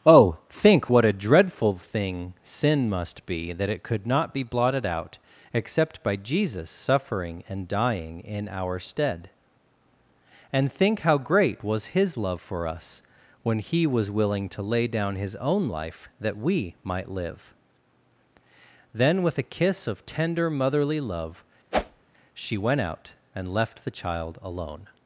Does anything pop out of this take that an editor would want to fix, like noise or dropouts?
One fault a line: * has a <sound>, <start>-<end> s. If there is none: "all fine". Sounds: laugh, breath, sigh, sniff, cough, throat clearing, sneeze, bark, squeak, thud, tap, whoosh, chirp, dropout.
* has a whoosh, 21.7-22.0 s